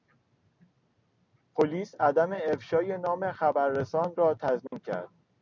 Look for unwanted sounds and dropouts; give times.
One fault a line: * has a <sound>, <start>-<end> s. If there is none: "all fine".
* has a dropout, 4.7-4.7 s